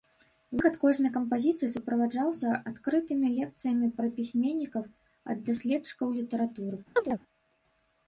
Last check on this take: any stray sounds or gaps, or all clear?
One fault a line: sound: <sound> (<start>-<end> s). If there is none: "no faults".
sound: chirp (7.0-7.2 s)